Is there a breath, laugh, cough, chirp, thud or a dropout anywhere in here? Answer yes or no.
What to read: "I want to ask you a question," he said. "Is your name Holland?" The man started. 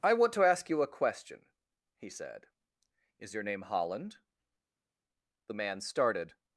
no